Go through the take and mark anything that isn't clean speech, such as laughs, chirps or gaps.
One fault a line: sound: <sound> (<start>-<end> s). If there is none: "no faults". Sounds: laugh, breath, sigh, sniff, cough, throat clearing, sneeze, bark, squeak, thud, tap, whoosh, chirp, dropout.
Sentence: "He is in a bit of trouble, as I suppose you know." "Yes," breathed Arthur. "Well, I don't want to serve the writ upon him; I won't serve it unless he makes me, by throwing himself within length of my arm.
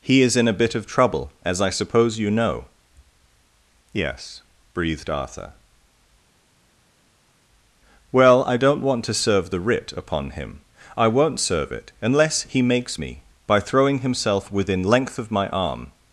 no faults